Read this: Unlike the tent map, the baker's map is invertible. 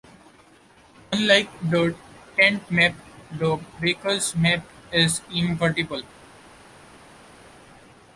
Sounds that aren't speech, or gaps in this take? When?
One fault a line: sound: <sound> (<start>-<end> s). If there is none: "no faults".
no faults